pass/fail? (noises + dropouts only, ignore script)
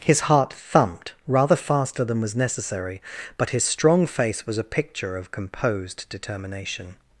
pass